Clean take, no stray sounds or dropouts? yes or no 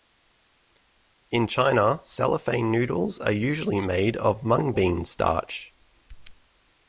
yes